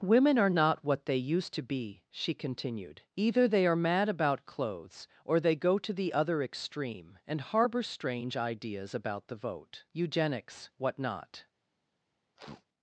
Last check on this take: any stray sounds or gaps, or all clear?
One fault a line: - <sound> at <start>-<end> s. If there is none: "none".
- sniff at 12.4-12.7 s